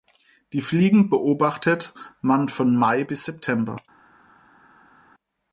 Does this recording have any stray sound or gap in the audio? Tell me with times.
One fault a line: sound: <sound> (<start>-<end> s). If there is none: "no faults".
no faults